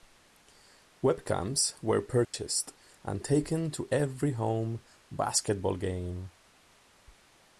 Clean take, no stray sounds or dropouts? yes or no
no